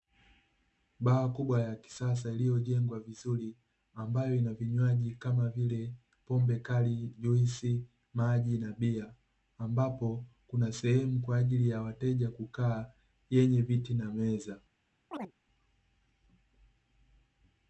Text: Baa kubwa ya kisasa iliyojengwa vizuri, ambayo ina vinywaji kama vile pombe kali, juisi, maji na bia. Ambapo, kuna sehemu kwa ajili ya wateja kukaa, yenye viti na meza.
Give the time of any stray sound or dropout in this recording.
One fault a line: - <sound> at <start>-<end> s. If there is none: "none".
- chirp at 15.1-15.3 s